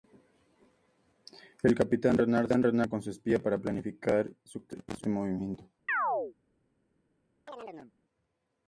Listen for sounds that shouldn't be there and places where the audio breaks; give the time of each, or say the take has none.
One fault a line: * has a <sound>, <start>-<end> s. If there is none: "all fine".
* has a chirp, 5.9-6.3 s
* has a chirp, 7.5-7.9 s